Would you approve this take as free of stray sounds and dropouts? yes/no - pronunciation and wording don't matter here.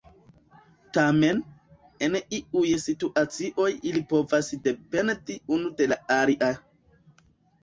yes